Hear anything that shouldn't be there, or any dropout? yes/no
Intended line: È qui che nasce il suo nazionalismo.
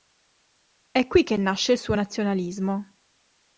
no